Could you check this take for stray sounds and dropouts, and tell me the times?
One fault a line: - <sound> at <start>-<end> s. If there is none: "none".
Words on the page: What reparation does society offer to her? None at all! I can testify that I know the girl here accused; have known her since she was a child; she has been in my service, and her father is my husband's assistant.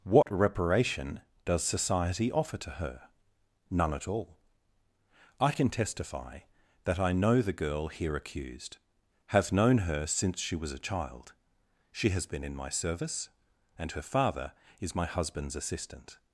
- dropout at 0.2-0.3 s